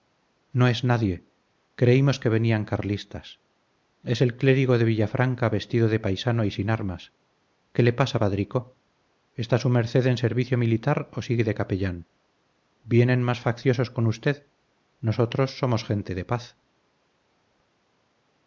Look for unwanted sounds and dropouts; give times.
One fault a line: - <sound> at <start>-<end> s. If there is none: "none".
none